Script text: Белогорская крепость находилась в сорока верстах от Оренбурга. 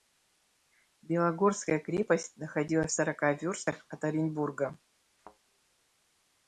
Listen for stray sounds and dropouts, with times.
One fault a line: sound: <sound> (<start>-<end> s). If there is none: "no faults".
sound: thud (5.2-5.4 s)